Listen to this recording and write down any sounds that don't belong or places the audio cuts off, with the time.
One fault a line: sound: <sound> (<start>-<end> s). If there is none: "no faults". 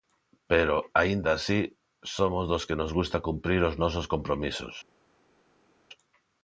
no faults